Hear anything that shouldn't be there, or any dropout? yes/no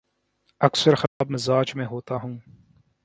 yes